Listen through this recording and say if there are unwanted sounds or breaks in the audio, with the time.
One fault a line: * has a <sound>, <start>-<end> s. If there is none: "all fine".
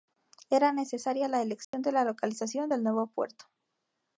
* has a dropout, 1.6-1.7 s